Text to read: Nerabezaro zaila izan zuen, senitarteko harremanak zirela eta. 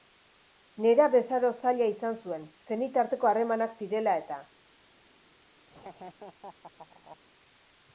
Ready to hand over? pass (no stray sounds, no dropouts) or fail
fail